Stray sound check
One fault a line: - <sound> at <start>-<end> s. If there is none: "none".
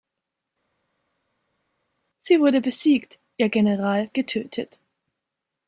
none